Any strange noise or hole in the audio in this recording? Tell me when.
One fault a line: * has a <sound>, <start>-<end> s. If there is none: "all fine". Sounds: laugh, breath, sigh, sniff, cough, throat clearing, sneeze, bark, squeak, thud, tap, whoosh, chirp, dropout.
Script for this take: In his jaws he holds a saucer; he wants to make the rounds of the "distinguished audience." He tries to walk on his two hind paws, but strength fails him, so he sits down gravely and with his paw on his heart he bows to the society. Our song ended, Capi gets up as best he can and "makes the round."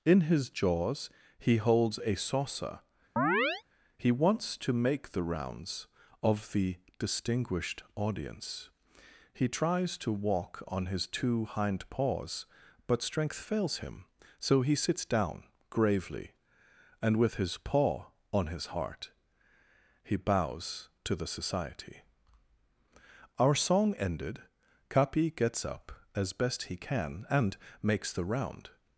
* has a chirp, 3.2-3.6 s